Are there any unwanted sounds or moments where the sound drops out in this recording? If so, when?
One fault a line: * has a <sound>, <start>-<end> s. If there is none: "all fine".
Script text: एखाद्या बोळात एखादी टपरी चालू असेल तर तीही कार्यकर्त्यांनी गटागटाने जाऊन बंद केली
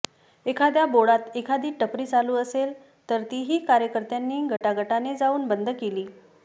* has a dropout, 4.6-4.6 s